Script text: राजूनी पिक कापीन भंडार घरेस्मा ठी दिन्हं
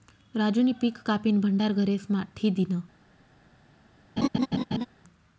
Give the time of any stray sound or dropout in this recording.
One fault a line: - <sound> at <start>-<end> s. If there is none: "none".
- laugh at 4.2-4.9 s